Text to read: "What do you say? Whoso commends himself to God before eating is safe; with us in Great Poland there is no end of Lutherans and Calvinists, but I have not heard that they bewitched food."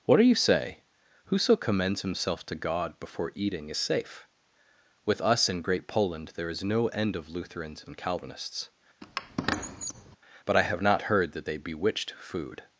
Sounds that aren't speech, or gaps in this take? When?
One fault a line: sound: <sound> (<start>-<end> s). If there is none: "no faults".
sound: squeak (9.0-10.2 s)